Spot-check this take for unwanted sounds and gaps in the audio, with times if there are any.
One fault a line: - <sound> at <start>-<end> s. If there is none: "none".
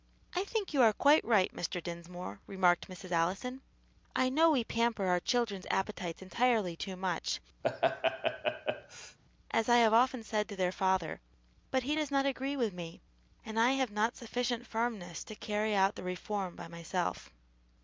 - laugh at 7.6-9.2 s